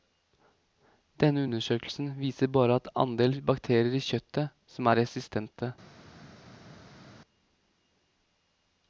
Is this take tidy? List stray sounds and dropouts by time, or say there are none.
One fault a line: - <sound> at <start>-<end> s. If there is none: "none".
none